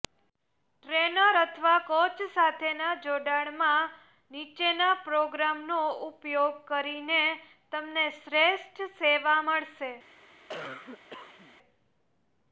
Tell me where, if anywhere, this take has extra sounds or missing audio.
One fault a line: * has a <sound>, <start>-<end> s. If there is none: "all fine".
* has a cough, 10.5-11.6 s